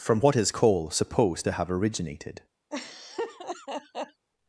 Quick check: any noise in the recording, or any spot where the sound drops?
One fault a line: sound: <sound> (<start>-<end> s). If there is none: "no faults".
sound: laugh (2.7-4.3 s)